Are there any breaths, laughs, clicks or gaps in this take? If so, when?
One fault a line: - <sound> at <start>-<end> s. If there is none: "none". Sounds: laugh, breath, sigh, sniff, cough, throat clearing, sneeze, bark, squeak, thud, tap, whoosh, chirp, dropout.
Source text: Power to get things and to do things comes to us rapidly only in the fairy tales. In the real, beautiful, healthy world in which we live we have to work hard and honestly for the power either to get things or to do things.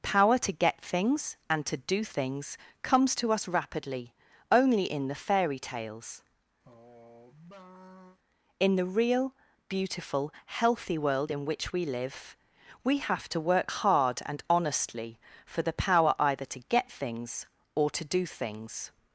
- sigh at 6.6-8.2 s